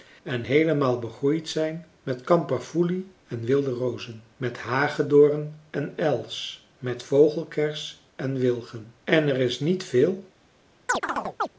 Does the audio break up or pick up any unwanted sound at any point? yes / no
yes